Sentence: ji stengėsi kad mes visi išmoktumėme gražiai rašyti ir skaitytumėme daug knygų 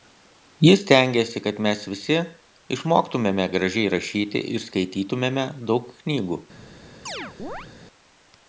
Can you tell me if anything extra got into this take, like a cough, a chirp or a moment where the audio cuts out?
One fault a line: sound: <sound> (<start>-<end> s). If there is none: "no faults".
sound: chirp (7.1-7.7 s)